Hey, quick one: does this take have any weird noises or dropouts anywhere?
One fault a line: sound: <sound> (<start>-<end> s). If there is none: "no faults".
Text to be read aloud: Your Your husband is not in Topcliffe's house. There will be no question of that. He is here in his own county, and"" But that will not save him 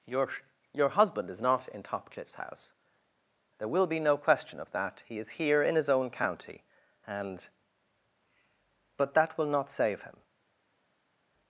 no faults